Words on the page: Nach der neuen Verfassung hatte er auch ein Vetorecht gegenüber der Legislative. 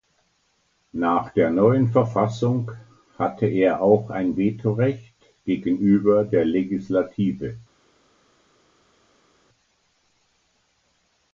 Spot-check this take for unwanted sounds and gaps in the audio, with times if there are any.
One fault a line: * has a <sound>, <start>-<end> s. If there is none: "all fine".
all fine